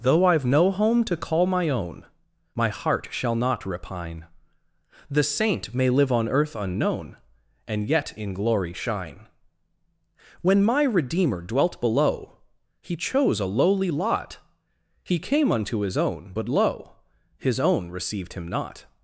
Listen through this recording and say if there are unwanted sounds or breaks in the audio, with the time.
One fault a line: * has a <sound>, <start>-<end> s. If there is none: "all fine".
all fine